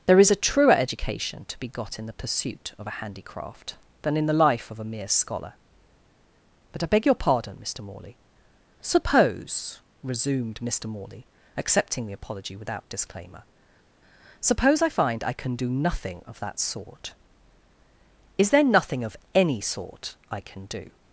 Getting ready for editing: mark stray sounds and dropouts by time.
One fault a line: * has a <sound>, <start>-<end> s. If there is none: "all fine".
all fine